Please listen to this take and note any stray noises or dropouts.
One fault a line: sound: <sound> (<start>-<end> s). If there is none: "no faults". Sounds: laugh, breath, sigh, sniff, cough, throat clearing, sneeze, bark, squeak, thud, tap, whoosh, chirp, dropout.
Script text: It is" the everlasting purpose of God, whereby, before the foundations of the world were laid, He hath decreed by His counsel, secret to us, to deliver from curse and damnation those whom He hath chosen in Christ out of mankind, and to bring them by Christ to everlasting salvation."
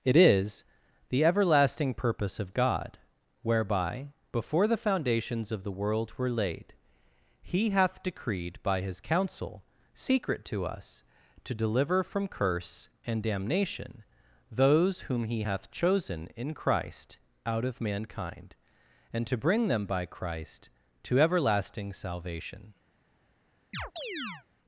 sound: chirp (23.7-24.5 s)